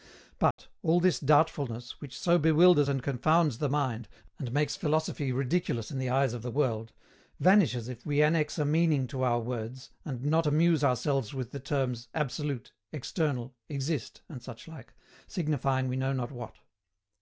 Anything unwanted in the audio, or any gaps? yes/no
yes